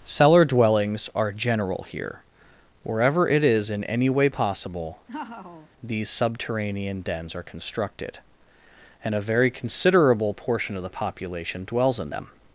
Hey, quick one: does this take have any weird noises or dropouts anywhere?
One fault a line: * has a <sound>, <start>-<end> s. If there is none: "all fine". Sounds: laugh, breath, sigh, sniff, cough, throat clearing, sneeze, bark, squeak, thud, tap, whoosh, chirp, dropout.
* has a laugh, 5.1-5.7 s